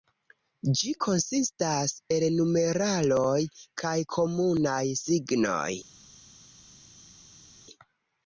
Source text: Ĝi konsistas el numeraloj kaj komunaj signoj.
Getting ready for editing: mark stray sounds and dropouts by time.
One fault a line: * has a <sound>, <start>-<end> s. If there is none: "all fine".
all fine